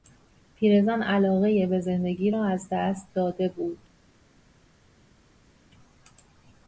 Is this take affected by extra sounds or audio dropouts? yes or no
no